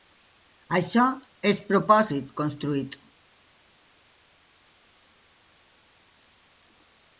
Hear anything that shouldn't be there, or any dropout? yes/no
no